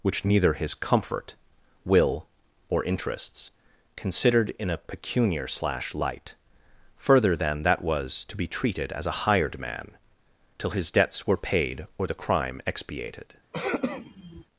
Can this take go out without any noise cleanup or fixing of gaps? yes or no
no